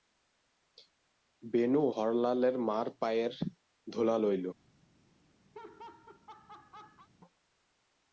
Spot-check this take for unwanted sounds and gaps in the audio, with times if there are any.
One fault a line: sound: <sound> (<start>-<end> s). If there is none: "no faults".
sound: laugh (5.5-7.1 s)